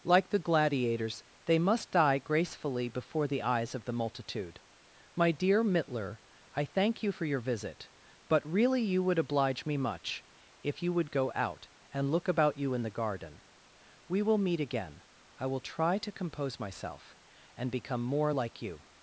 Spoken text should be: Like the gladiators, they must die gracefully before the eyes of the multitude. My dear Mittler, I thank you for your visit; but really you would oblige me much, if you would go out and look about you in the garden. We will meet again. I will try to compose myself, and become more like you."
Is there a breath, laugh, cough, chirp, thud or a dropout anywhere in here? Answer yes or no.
no